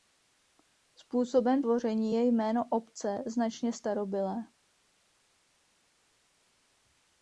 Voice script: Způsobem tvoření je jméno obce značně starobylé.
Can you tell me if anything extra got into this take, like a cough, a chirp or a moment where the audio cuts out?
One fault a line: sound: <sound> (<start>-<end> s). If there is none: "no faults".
no faults